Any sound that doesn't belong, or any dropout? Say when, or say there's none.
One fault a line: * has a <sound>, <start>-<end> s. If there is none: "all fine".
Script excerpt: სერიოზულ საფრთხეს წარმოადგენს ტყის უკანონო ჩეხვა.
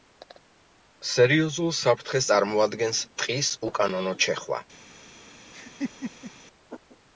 * has a laugh, 5.5-6.3 s